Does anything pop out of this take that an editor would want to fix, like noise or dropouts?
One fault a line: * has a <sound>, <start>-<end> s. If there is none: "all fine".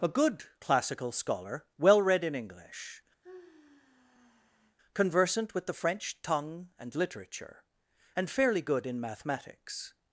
* has a sigh, 3.2-4.8 s